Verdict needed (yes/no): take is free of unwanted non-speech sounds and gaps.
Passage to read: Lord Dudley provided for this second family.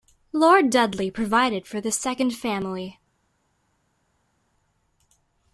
yes